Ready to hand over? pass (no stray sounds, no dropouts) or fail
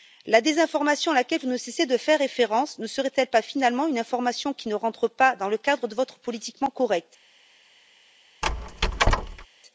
fail